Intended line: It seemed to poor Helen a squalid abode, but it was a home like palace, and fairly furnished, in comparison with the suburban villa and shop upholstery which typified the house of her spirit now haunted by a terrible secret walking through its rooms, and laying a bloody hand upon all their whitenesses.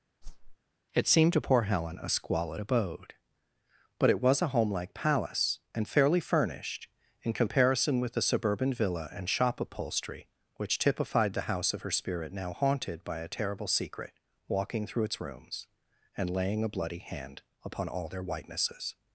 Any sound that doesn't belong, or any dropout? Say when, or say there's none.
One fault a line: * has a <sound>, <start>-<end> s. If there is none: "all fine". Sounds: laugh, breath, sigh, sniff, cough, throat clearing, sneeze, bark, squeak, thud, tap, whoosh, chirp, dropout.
* has a whoosh, 0.2-0.6 s